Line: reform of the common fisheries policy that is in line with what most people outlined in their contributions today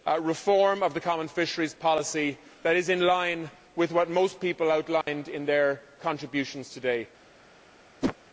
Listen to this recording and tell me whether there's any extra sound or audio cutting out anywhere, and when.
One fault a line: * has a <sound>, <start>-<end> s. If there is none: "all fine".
* has a dropout, 5.0-5.1 s
* has a whoosh, 8.0-8.2 s